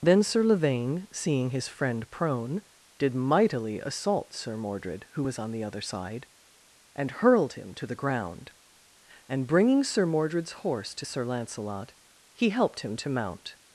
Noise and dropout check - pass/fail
pass